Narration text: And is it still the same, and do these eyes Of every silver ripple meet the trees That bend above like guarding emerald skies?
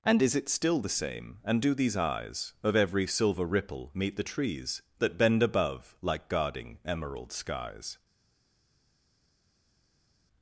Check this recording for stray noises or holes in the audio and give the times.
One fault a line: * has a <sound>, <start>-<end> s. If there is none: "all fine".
all fine